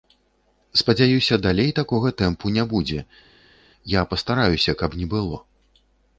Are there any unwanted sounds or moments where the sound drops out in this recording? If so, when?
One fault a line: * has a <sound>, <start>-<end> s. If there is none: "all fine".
all fine